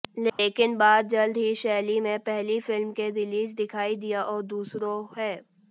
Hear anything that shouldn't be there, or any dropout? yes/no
yes